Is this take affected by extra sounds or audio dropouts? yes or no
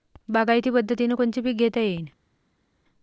no